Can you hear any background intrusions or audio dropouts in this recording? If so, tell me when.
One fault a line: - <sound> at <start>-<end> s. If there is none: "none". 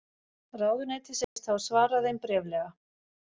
- dropout at 1.2-1.4 s